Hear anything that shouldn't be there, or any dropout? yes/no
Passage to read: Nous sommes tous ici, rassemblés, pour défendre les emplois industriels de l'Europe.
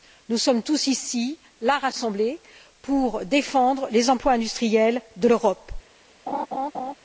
yes